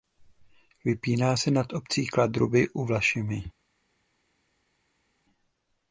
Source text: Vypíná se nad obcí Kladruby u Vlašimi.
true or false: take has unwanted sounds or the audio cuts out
false